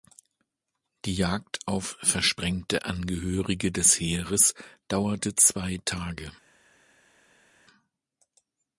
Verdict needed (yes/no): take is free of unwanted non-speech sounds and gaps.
yes